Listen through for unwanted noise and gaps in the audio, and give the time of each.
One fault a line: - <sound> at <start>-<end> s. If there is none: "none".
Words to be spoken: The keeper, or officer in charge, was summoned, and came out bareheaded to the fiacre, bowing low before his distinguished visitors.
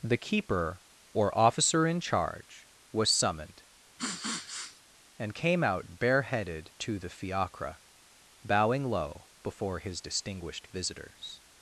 - sniff at 4.0-4.8 s